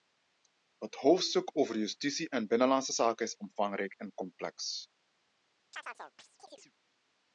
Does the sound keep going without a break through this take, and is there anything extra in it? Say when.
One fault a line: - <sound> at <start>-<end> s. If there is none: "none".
- chirp at 5.7-6.7 s